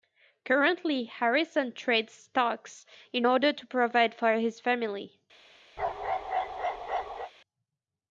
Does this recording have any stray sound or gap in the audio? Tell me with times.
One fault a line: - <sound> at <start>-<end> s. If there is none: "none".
- bark at 5.8-7.3 s